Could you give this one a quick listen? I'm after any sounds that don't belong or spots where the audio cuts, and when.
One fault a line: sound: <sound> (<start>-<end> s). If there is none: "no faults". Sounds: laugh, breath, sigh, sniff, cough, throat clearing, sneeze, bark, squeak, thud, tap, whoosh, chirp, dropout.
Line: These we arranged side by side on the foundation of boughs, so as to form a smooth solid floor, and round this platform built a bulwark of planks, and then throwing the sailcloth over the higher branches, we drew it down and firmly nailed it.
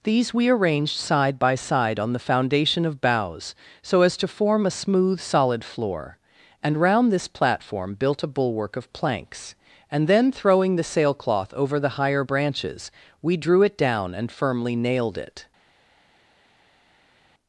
no faults